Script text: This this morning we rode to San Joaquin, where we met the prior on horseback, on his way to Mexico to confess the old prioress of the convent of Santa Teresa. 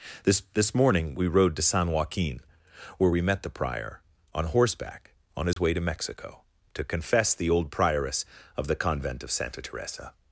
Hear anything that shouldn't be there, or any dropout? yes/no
yes